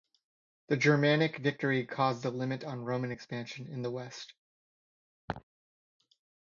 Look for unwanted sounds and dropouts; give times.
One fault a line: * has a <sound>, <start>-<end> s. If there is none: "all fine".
* has a laugh, 5.3-5.4 s